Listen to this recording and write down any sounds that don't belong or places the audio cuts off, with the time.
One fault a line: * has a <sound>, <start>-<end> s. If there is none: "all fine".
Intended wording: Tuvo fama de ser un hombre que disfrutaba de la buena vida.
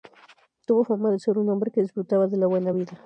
all fine